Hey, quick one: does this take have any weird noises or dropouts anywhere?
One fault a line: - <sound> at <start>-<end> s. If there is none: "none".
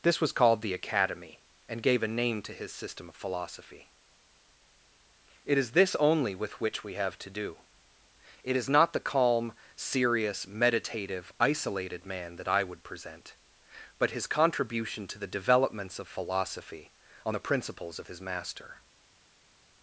none